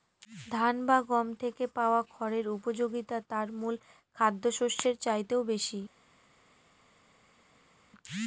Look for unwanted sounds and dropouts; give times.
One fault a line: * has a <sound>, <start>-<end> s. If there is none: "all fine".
all fine